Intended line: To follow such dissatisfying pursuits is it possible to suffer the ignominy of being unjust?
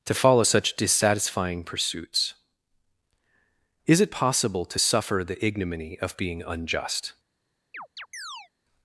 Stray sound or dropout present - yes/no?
yes